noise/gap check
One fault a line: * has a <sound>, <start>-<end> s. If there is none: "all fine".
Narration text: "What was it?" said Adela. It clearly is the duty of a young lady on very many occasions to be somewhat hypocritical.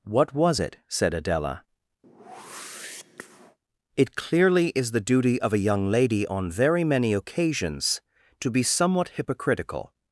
* has a whoosh, 2.0-3.6 s